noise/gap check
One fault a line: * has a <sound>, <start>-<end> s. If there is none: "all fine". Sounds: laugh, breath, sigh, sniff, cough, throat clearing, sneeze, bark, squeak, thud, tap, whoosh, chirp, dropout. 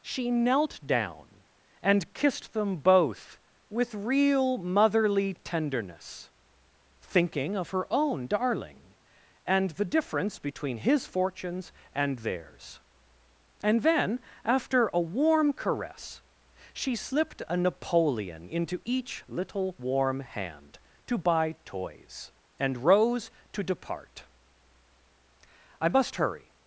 all fine